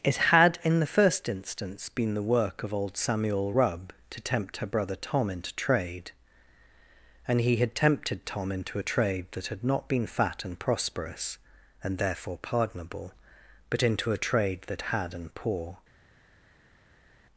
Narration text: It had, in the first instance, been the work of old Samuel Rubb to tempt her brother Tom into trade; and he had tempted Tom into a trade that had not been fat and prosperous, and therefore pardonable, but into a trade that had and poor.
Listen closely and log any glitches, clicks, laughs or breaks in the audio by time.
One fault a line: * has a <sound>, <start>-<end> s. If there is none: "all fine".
all fine